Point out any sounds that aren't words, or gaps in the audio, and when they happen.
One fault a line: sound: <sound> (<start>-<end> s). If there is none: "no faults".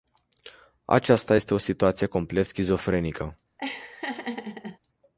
sound: laugh (3.6-4.8 s)